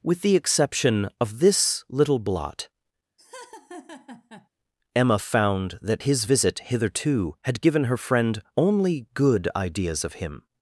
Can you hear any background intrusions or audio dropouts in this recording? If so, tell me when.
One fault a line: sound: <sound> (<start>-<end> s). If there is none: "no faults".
sound: laugh (3.2-4.5 s)